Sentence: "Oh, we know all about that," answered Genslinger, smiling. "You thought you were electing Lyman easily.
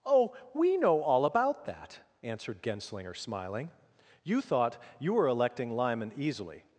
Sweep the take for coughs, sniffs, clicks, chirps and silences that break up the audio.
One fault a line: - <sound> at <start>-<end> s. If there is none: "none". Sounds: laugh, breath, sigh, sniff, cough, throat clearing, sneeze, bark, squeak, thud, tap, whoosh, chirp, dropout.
none